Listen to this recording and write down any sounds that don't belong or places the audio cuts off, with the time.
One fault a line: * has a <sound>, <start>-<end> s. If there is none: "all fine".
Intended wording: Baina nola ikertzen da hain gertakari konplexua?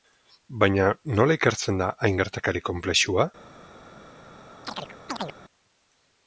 * has a chirp, 4.6-5.4 s